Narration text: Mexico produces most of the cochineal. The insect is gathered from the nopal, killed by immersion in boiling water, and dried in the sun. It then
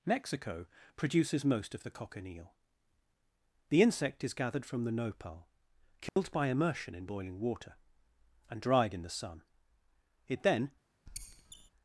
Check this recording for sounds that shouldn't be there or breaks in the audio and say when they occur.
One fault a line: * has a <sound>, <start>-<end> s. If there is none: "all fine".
* has a dropout, 6.1-6.2 s
* has a squeak, 11.1-11.7 s